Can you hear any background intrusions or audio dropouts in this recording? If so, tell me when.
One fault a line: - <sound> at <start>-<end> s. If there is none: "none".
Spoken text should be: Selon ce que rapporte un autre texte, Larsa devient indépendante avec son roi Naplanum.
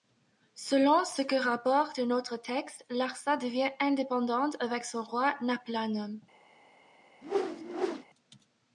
- whoosh at 7.2-8.0 s